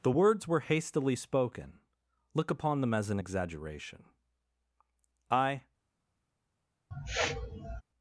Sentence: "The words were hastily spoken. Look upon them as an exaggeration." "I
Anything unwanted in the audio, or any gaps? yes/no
yes